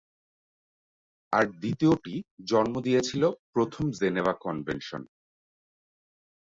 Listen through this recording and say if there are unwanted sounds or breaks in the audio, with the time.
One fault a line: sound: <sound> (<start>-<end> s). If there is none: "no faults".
no faults